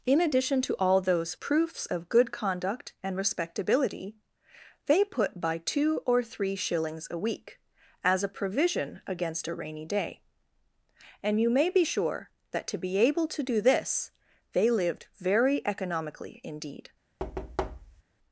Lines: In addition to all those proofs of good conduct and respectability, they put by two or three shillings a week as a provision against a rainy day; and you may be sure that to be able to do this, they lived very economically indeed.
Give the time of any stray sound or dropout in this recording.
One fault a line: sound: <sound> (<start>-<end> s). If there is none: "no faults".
sound: thud (17.2-18.0 s)